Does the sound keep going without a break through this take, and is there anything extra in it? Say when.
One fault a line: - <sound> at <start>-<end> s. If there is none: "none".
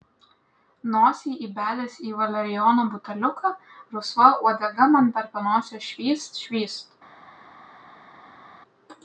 none